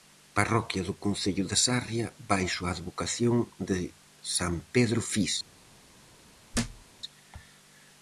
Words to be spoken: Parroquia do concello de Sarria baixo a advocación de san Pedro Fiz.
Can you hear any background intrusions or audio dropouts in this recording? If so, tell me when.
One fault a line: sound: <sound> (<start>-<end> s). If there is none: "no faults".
sound: thud (6.5-6.8 s)